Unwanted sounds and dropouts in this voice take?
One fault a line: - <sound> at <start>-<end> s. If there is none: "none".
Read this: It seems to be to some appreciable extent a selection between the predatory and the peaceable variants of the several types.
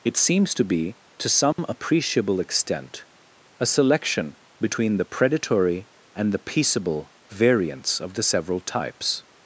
- dropout at 1.5-1.6 s